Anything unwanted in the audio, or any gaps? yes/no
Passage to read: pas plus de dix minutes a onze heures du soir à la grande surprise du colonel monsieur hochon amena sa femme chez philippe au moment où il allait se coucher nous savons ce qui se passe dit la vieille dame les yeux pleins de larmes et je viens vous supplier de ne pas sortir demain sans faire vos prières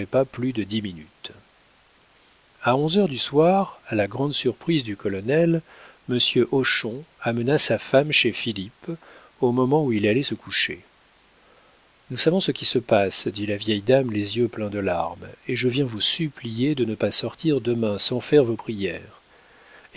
no